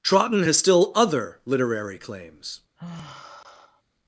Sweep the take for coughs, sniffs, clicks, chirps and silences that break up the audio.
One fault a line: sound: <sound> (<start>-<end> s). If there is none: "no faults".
sound: sigh (2.8-3.8 s)